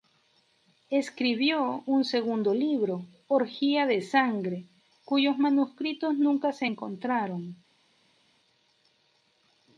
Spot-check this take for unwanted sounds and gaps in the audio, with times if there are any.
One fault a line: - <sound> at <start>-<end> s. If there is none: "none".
none